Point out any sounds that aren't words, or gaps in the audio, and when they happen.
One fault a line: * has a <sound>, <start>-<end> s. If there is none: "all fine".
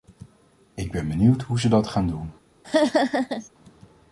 * has a laugh, 2.6-3.5 s